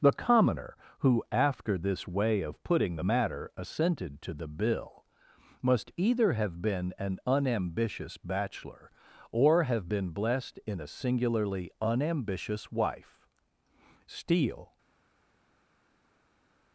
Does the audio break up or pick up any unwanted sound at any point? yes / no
no